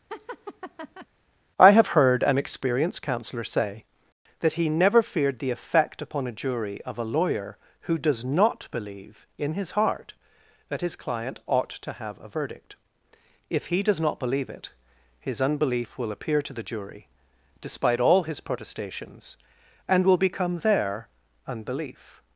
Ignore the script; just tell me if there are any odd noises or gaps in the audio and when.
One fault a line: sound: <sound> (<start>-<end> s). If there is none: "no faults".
sound: laugh (0.1-1.1 s)